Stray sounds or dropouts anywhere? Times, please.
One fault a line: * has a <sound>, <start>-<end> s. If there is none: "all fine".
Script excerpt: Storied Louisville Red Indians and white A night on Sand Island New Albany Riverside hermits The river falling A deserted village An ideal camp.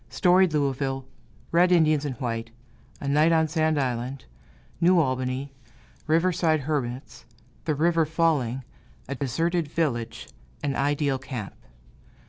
* has a dropout, 9.2-9.2 s